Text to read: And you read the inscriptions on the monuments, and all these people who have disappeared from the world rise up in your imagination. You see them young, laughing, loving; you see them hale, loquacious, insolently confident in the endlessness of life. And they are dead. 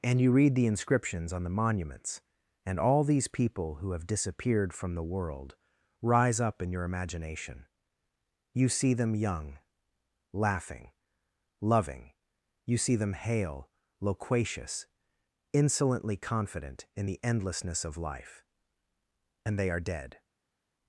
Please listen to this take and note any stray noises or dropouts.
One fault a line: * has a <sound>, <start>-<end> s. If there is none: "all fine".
all fine